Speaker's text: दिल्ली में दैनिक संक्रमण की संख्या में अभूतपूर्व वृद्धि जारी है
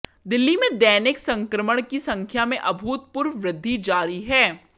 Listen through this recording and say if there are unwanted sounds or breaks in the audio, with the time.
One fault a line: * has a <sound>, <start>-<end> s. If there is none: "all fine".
all fine